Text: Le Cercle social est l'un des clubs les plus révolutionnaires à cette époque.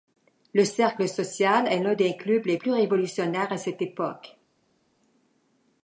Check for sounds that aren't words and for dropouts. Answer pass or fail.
pass